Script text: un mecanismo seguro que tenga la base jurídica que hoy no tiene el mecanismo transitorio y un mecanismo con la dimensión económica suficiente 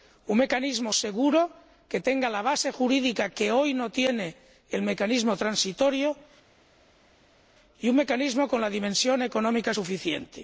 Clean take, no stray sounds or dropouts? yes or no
yes